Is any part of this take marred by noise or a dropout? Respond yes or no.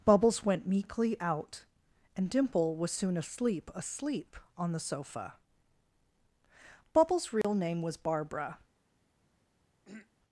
yes